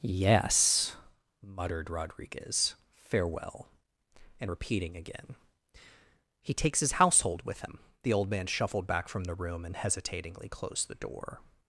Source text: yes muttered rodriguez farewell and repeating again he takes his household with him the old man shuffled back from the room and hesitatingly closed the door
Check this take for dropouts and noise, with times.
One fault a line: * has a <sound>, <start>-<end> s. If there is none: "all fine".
all fine